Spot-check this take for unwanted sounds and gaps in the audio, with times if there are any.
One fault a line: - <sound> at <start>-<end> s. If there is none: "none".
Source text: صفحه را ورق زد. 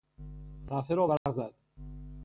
- dropout at 1.2-1.3 s